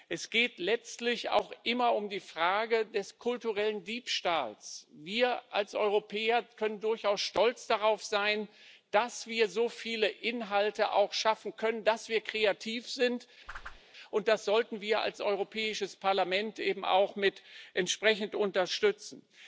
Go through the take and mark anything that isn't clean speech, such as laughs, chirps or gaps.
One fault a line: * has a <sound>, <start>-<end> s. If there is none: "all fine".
* has a whoosh, 13.5-13.8 s